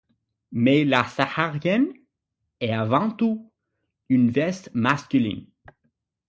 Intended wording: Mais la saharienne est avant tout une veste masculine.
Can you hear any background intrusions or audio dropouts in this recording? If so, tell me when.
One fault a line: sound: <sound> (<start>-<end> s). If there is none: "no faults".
no faults